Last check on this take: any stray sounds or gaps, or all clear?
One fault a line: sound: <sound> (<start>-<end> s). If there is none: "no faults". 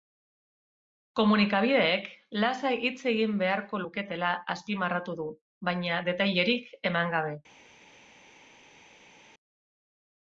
no faults